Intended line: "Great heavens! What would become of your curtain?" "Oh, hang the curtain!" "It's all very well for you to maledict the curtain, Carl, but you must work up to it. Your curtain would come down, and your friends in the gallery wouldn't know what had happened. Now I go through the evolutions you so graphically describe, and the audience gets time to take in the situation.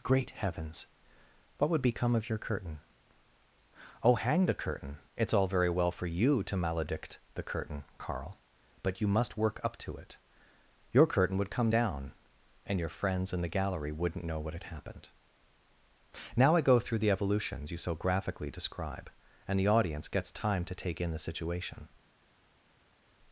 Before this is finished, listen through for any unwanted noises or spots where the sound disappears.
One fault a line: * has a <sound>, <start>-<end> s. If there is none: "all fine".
all fine